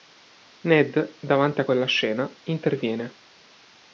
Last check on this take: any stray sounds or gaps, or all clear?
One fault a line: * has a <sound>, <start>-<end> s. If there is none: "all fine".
all fine